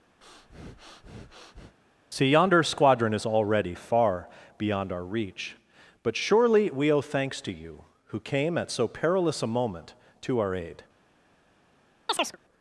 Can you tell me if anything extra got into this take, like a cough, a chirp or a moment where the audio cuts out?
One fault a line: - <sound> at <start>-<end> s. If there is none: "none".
- breath at 0.2-1.8 s
- chirp at 12.1-12.4 s